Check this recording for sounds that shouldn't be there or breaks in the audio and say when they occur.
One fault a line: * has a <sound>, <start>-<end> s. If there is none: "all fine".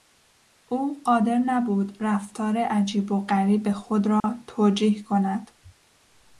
* has a dropout, 4.2-4.2 s